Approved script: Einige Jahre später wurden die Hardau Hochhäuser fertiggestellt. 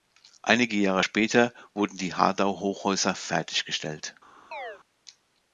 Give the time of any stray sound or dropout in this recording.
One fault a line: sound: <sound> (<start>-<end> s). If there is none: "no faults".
sound: chirp (4.5-4.8 s)